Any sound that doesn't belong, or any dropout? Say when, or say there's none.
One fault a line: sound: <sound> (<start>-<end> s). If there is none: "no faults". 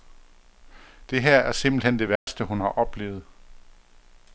sound: dropout (2.2-2.3 s)